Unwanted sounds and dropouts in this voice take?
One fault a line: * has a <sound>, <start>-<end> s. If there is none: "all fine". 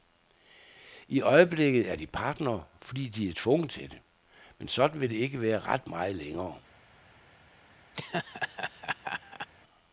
* has a laugh, 7.9-9.5 s